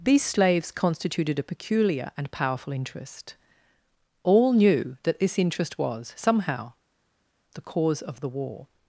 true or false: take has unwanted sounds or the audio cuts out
false